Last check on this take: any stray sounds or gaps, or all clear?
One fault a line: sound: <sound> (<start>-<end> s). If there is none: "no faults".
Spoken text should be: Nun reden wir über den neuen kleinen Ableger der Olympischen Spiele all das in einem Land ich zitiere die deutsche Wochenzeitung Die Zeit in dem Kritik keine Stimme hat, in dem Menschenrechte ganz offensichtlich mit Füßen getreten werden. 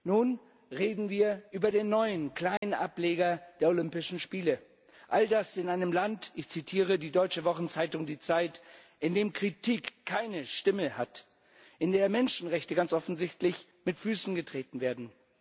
sound: dropout (2.6-2.6 s)